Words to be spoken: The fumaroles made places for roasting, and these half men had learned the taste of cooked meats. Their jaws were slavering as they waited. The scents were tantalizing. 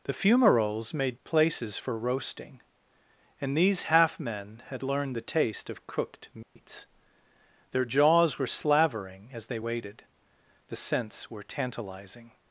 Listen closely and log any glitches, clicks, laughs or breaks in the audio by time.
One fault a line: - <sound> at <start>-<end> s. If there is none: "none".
- dropout at 6.4-6.6 s